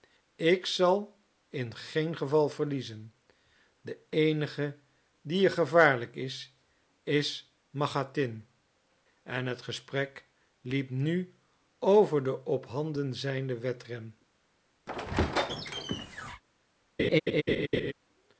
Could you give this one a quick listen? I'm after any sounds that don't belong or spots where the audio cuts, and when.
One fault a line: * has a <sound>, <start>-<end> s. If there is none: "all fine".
* has a squeak, 14.9-16.4 s
* has a laugh, 17.0-17.9 s